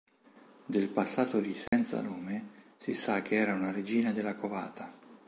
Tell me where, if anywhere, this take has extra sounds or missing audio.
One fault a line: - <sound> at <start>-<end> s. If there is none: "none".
- dropout at 1.7-1.7 s